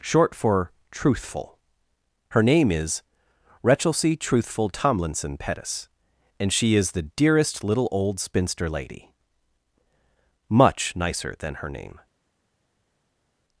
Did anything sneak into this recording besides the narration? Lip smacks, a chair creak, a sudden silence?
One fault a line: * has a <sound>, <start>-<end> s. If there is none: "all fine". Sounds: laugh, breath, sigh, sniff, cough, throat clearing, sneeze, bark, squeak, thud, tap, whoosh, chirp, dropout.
all fine